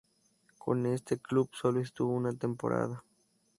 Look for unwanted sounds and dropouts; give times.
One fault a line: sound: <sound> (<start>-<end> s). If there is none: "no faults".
no faults